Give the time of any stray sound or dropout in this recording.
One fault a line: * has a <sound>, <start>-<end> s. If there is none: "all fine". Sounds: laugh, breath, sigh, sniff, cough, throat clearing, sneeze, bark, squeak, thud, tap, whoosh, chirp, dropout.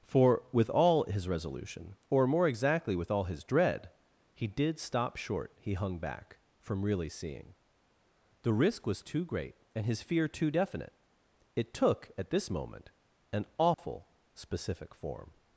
* has a dropout, 13.7-13.8 s